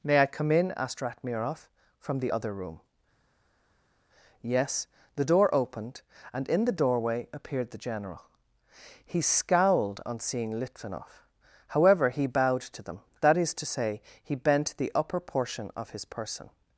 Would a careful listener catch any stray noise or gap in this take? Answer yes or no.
no